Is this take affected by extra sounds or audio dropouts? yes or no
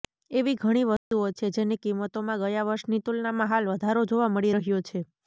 yes